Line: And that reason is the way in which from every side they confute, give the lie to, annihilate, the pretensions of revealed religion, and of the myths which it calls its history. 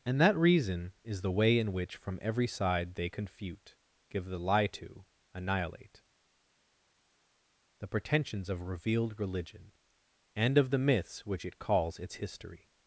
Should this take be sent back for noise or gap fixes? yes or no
no